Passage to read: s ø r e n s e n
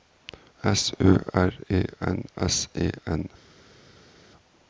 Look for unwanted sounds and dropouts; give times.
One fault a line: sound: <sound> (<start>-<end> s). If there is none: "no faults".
no faults